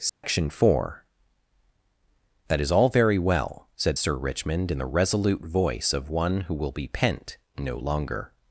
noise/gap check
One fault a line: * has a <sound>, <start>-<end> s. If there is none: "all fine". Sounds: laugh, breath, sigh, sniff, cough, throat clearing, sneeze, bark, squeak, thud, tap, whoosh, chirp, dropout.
* has a dropout, 0.1-0.2 s